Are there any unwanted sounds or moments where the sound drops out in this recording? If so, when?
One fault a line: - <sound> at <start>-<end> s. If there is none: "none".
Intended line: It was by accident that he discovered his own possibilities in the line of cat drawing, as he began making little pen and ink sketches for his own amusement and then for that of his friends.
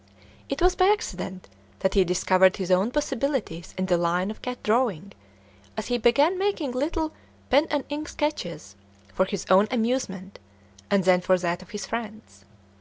none